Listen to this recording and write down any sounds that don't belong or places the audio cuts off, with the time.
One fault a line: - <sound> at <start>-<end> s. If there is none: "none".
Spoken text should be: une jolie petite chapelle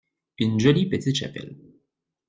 none